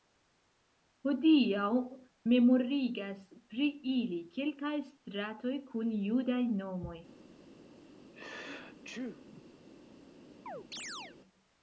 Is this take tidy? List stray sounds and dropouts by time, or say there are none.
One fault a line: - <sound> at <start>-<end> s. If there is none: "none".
- sneeze at 8.1-9.4 s
- chirp at 10.5-11.2 s